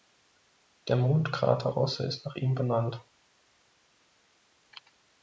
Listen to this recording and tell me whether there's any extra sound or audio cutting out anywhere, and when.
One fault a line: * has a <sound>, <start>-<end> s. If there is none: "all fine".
all fine